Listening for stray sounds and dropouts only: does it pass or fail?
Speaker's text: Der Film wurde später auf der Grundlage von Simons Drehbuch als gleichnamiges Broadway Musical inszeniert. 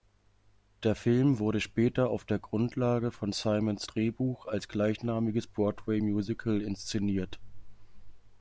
pass